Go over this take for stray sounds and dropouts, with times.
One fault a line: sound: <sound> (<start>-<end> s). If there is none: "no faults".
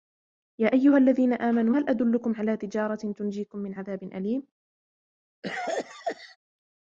sound: cough (5.4-6.4 s)